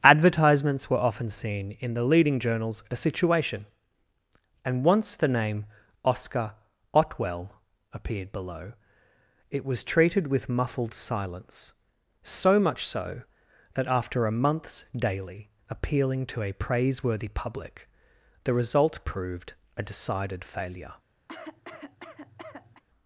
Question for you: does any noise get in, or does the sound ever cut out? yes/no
yes